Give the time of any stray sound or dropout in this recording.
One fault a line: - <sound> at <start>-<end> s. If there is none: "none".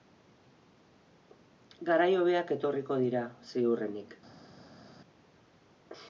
none